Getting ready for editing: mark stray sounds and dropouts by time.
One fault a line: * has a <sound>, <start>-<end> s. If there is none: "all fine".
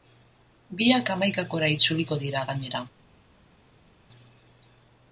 all fine